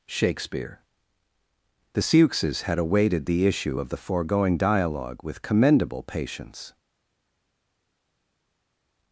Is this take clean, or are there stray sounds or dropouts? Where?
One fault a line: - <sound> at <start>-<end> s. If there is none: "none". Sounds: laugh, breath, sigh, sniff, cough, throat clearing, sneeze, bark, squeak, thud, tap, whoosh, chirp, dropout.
none